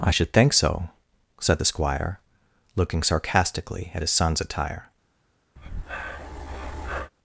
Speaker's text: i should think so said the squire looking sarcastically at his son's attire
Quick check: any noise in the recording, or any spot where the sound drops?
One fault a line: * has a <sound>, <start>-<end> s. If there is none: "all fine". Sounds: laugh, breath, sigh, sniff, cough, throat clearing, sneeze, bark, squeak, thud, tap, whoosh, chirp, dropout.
* has a breath, 5.6-7.1 s